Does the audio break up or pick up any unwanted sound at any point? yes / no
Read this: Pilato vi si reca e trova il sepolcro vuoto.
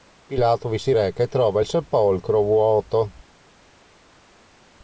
no